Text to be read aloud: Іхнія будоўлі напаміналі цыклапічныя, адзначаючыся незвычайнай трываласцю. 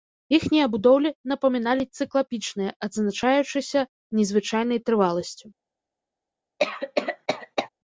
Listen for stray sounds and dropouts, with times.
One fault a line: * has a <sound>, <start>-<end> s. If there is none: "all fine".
* has a cough, 6.6-7.7 s